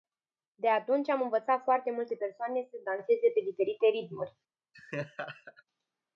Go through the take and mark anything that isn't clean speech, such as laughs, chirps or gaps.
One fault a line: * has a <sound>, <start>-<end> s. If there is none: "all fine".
* has a laugh, 4.7-5.6 s